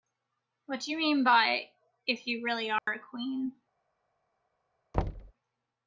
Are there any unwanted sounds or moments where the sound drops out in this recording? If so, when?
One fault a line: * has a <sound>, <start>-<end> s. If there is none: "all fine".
* has a dropout, 2.8-2.9 s
* has a thud, 4.9-5.3 s